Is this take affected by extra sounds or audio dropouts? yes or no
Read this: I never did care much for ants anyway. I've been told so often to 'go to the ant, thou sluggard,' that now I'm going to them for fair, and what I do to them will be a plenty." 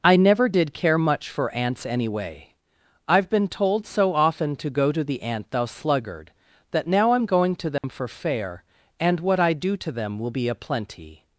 yes